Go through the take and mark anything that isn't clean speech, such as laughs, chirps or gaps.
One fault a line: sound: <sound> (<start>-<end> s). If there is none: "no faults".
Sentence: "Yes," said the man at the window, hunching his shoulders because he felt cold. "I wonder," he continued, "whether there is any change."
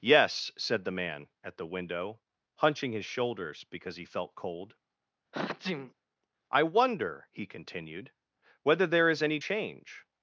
sound: sniff (5.3-5.9 s)